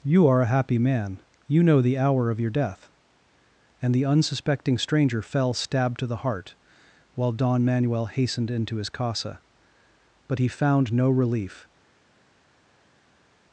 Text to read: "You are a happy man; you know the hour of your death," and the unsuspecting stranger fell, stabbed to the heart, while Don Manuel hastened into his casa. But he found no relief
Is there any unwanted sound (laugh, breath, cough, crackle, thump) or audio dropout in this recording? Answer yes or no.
no